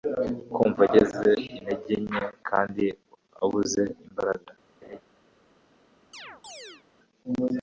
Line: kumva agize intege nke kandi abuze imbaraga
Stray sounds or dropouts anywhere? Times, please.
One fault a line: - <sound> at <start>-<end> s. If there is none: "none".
- laugh at 4.8-5.0 s
- chirp at 6.1-6.8 s